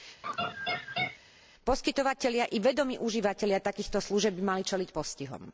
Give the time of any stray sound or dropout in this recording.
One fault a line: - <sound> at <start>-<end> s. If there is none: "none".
- laugh at 0.2-1.2 s